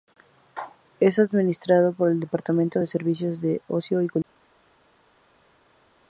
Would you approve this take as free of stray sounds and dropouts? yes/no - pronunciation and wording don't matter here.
yes